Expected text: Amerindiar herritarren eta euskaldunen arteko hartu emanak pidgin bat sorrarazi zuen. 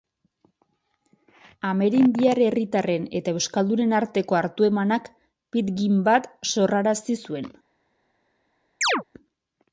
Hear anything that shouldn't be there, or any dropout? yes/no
yes